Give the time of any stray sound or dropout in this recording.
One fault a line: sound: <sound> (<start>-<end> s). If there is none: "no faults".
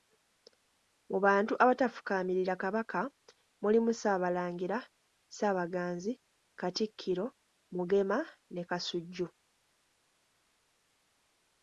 no faults